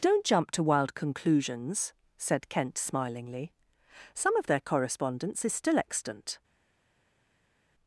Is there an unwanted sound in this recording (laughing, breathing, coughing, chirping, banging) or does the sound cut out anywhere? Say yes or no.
no